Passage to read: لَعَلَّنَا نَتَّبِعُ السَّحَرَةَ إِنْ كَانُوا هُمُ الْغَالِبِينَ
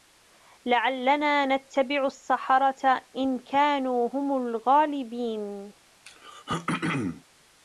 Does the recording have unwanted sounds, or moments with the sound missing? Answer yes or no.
yes